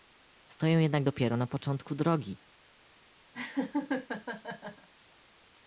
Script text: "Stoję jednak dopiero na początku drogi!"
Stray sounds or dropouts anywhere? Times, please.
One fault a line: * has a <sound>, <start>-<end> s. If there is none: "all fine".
* has a laugh, 3.3-4.9 s